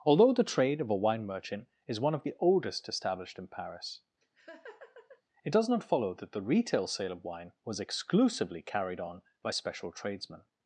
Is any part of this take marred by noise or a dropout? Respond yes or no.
yes